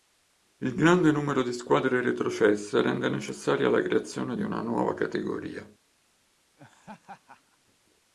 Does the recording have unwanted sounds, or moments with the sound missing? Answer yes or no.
yes